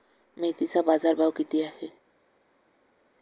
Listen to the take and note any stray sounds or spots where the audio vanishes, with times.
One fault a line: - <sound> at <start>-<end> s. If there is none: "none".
none